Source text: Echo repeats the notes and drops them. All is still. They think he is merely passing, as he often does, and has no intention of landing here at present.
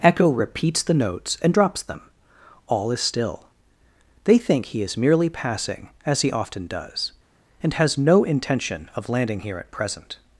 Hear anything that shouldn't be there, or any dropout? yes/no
no